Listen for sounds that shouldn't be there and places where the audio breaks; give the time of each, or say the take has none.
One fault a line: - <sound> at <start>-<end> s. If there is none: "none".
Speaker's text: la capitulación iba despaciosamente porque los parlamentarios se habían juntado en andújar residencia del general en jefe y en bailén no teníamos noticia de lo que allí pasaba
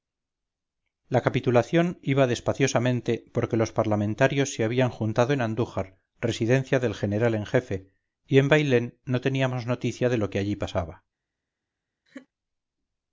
- laugh at 12.1-12.3 s